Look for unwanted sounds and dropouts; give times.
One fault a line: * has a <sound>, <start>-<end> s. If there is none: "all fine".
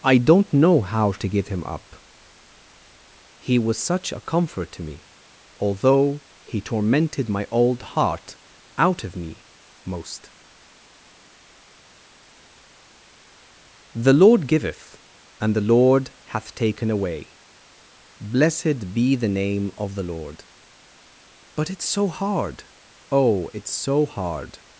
all fine